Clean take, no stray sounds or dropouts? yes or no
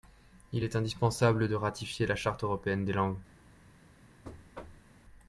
no